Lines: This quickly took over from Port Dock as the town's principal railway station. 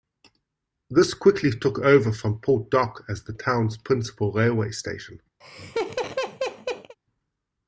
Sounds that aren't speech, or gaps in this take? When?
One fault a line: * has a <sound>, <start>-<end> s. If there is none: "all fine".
* has a laugh, 5.4-7.0 s